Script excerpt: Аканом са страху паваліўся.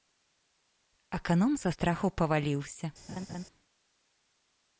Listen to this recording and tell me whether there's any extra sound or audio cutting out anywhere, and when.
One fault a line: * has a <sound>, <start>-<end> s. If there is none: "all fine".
* has a laugh, 3.1-3.4 s